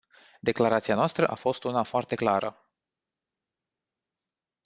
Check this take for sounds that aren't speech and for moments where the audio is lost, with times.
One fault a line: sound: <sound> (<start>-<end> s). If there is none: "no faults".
no faults